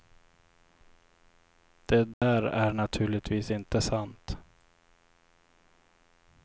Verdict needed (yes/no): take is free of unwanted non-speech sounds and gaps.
no